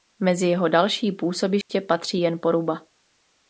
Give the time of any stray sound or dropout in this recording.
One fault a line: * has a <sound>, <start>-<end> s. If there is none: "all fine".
* has a dropout, 1.6-1.7 s